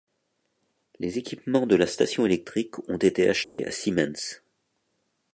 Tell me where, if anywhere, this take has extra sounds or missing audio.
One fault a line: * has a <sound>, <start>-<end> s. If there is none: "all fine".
* has a dropout, 3.4-3.6 s